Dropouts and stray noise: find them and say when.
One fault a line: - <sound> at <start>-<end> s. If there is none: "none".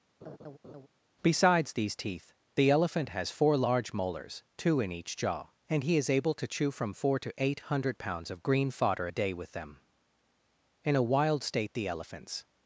- laugh at 0.2-0.9 s